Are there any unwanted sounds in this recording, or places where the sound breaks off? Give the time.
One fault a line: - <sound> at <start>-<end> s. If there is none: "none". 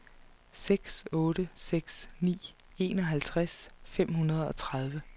none